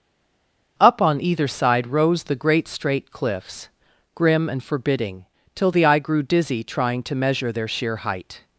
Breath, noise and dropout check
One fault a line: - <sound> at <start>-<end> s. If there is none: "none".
none